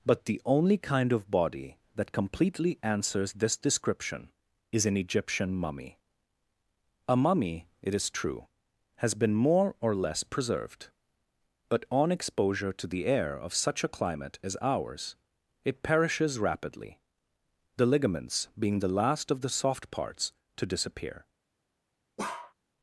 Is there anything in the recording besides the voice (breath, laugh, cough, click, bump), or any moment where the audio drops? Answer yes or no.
yes